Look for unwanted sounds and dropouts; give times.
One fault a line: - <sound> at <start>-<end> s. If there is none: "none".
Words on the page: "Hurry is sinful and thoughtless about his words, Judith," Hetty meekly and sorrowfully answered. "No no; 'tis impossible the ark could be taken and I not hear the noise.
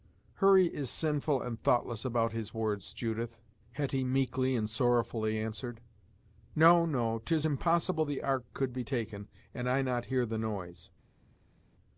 none